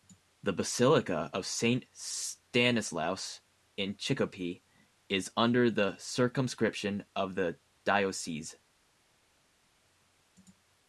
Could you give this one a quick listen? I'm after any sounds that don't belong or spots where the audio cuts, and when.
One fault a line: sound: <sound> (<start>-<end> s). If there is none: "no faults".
no faults